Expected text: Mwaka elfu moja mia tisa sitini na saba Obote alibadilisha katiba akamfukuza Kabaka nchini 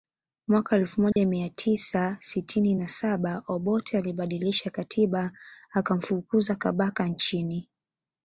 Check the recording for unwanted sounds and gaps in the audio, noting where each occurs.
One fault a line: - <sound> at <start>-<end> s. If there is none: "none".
- dropout at 1.1-1.2 s